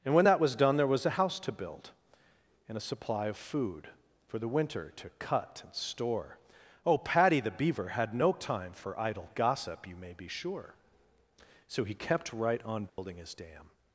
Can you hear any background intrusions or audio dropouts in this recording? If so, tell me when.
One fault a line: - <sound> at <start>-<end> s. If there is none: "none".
- dropout at 12.9-13.0 s